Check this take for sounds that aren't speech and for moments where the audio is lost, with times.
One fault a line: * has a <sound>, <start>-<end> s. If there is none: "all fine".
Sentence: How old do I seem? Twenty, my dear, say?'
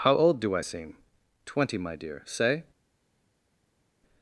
all fine